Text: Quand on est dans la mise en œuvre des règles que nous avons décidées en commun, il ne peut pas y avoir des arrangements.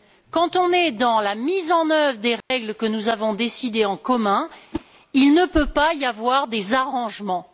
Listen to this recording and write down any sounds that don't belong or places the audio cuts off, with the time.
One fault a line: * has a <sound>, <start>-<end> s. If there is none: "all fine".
* has a dropout, 2.4-2.5 s
* has a whoosh, 4.7-4.8 s